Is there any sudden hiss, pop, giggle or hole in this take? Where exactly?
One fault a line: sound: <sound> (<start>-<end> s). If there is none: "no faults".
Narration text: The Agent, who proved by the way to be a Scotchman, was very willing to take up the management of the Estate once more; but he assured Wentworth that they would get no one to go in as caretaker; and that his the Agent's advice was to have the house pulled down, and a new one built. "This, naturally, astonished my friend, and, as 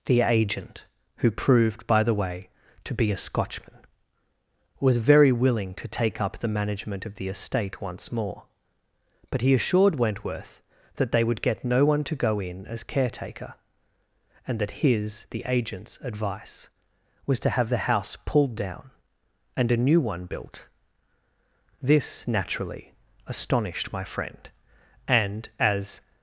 no faults